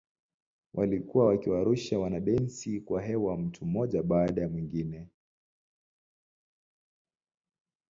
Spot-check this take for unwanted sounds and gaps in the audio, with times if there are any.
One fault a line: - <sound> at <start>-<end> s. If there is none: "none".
none